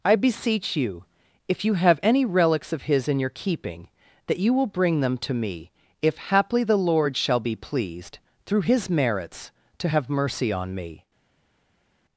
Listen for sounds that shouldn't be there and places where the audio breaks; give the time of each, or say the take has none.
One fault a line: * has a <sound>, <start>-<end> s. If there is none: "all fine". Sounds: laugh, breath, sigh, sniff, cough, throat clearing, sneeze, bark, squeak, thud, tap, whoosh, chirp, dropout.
all fine